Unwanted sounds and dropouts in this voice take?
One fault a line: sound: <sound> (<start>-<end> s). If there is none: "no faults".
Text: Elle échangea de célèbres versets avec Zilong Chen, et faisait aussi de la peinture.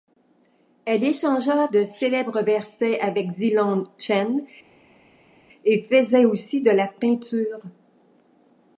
no faults